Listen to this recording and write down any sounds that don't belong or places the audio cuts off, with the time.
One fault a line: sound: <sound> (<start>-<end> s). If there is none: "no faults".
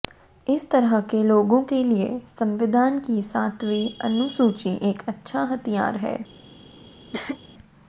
sound: cough (7.1-7.4 s)